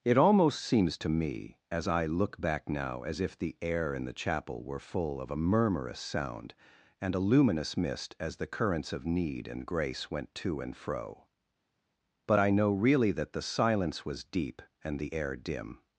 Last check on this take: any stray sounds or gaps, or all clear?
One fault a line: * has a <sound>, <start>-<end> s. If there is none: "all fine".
all fine